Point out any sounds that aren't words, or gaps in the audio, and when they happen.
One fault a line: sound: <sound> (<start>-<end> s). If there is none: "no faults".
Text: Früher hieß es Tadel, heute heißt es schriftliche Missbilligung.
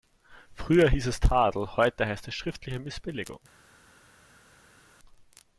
no faults